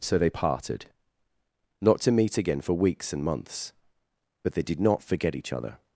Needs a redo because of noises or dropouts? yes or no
no